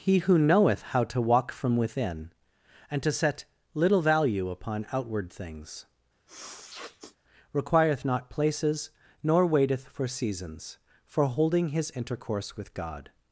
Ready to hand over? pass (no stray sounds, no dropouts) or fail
fail